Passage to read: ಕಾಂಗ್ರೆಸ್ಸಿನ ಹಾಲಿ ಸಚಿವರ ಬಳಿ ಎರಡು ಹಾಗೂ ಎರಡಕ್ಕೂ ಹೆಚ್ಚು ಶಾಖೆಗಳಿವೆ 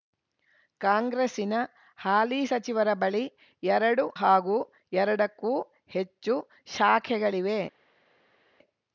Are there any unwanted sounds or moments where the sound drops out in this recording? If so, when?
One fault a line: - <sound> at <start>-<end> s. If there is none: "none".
none